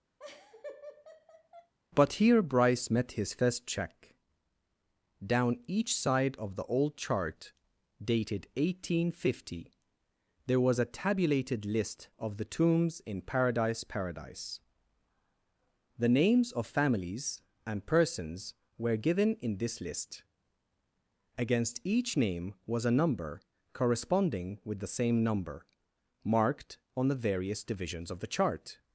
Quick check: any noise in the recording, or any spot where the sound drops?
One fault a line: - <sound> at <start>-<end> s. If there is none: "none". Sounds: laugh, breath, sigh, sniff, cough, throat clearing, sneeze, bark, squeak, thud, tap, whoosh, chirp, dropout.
- laugh at 0.2-1.7 s